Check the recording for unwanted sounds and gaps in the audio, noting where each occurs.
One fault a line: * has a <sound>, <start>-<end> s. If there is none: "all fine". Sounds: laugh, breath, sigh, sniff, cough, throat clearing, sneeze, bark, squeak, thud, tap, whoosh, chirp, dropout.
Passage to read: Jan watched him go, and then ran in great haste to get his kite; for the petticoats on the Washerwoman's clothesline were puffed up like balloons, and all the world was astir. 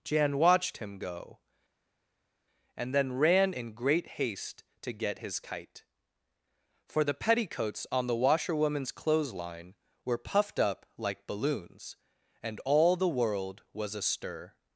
all fine